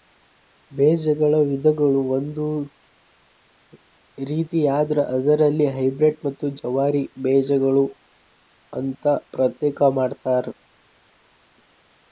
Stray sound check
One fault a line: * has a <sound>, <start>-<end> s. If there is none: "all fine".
all fine